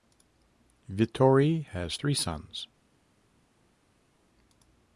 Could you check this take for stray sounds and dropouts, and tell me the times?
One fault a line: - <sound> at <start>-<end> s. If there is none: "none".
none